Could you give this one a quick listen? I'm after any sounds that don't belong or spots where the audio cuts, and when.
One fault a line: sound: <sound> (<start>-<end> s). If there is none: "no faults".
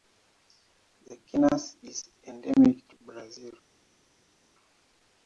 no faults